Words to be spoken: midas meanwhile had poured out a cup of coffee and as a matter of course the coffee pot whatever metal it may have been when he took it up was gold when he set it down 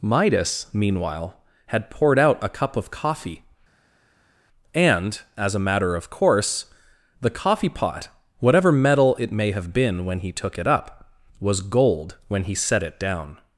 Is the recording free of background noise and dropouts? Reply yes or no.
yes